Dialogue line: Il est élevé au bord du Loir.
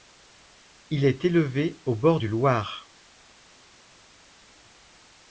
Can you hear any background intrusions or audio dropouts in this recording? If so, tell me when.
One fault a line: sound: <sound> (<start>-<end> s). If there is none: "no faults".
no faults